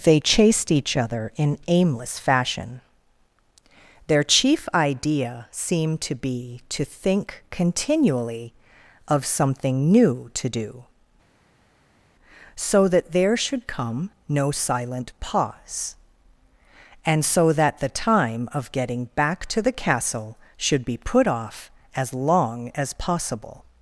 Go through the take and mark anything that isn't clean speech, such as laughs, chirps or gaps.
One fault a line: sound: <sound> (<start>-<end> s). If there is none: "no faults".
no faults